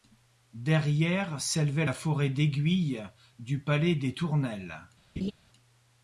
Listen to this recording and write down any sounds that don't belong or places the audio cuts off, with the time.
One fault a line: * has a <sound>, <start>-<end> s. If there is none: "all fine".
* has a laugh, 5.2-5.3 s